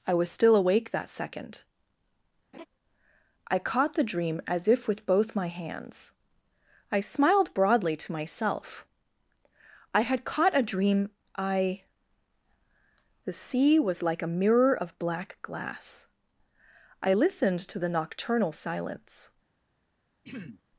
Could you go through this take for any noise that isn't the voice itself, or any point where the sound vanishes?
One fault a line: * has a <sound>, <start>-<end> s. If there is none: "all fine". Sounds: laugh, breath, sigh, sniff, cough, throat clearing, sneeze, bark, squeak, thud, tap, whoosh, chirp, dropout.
* has a laugh, 2.5-2.7 s
* has a throat clearing, 20.2-20.6 s